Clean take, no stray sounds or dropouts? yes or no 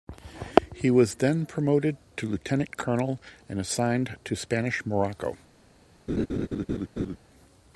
no